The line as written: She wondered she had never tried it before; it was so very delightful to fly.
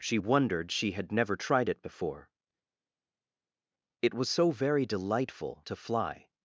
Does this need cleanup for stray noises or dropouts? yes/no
no